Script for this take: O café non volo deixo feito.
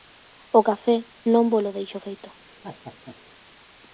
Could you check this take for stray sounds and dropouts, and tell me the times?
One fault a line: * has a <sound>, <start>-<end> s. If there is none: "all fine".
* has a laugh, 2.6-3.2 s